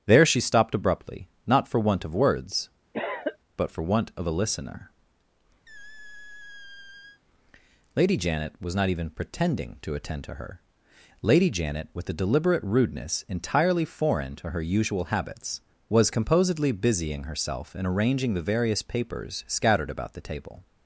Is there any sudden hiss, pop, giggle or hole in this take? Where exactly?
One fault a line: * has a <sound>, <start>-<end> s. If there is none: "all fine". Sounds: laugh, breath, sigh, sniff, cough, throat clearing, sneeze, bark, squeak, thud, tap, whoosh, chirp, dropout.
* has a cough, 2.9-3.4 s
* has a squeak, 5.7-7.2 s